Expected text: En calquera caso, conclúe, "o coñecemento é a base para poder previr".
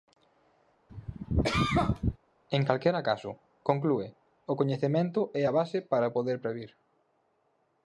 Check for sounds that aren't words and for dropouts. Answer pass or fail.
fail